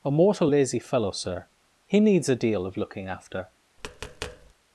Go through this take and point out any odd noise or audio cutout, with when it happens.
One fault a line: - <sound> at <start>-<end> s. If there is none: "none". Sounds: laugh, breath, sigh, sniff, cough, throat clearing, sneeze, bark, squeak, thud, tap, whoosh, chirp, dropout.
- tap at 3.8-4.5 s